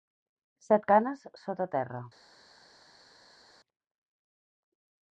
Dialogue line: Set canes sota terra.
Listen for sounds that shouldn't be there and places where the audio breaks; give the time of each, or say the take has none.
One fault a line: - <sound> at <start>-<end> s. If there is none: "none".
none